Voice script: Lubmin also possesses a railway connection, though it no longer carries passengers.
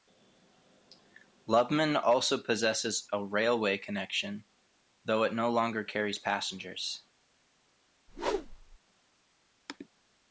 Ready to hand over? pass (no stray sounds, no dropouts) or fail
fail